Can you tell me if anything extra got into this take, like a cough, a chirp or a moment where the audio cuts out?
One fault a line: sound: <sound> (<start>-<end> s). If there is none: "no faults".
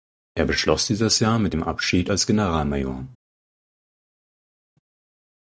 no faults